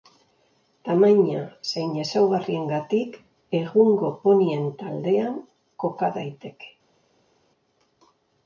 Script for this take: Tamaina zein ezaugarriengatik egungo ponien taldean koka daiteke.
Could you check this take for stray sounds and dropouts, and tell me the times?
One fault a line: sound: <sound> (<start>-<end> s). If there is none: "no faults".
no faults